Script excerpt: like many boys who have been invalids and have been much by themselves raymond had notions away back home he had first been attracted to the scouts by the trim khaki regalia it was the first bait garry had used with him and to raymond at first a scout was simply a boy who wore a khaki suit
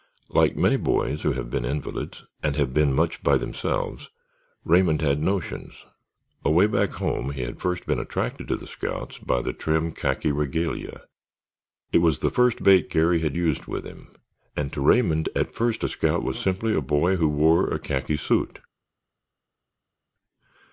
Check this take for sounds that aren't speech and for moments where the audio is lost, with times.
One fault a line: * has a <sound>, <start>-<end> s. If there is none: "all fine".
all fine